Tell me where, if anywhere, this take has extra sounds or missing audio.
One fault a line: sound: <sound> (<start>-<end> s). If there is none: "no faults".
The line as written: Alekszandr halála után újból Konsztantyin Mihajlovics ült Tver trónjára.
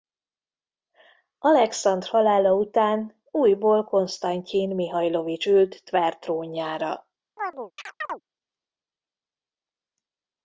sound: chirp (7.4-8.2 s)